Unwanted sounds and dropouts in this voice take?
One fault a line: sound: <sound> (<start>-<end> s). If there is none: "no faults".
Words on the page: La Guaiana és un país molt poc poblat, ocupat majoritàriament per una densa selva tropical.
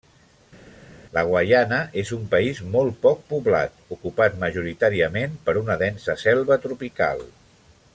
no faults